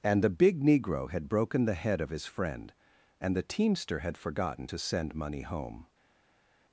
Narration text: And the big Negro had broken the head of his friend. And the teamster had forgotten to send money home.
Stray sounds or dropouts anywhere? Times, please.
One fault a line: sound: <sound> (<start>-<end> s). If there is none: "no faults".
no faults